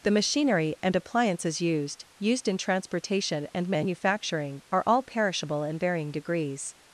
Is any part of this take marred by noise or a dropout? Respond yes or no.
no